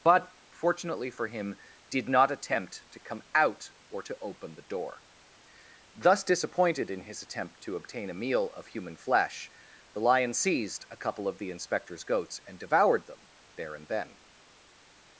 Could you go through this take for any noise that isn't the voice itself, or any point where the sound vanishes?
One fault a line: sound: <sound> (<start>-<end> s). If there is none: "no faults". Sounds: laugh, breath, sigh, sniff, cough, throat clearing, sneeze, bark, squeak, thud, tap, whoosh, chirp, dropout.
no faults